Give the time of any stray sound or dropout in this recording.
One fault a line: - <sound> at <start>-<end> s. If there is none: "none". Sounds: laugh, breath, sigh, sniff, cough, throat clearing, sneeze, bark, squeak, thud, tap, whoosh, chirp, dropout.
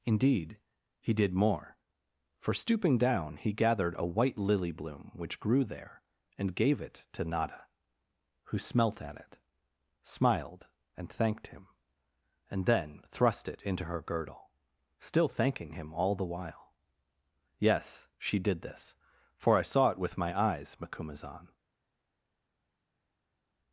none